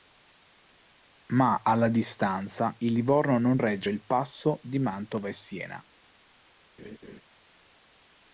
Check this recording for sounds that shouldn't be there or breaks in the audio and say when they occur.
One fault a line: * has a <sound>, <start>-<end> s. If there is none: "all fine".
* has a laugh, 6.8-7.2 s